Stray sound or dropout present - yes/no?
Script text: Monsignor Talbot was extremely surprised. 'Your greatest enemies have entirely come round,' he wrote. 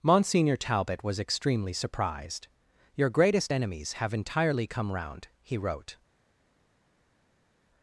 no